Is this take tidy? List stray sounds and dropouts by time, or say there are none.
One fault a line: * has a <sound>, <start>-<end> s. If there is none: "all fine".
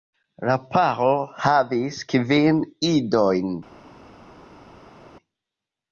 all fine